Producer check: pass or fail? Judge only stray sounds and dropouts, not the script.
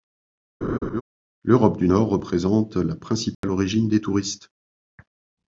fail